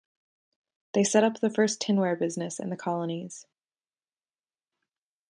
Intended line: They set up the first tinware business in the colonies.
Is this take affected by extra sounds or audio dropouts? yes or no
no